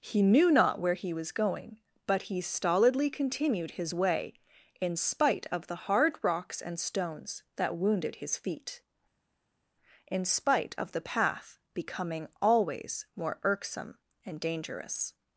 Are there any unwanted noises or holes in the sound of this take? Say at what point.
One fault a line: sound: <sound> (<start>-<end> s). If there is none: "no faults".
no faults